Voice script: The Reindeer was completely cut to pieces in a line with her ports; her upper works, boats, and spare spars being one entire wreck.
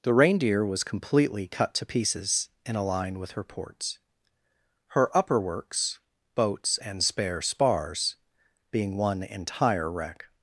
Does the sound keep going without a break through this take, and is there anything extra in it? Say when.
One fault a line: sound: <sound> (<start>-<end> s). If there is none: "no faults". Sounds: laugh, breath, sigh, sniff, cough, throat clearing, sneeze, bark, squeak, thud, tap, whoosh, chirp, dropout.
no faults